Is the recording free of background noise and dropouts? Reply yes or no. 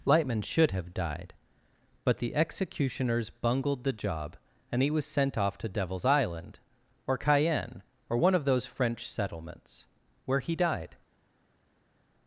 yes